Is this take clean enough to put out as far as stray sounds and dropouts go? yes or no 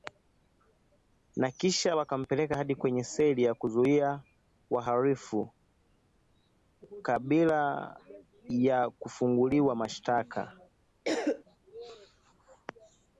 no